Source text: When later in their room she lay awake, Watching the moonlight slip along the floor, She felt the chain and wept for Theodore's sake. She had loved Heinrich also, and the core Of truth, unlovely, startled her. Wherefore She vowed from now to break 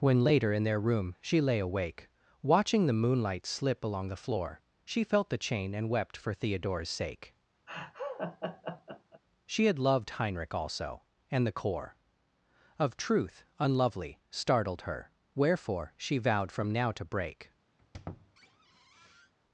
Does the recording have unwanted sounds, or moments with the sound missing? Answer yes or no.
yes